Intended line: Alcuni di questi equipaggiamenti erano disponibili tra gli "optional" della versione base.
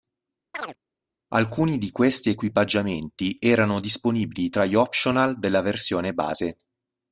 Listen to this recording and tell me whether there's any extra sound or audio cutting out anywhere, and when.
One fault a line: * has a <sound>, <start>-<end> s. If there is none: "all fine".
* has a chirp, 0.5-0.8 s